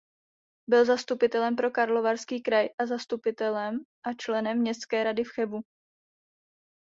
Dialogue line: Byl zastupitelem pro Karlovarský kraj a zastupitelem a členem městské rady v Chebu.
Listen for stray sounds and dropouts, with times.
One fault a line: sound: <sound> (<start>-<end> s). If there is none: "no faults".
no faults